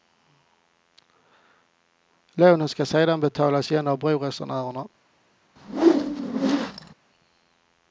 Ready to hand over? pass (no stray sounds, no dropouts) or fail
fail